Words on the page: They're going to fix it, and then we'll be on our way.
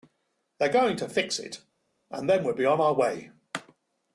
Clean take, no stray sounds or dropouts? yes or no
yes